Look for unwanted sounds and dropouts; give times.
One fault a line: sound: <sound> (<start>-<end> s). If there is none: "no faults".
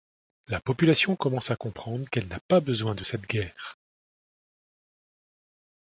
no faults